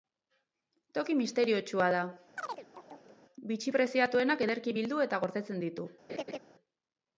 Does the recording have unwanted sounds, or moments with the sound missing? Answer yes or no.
yes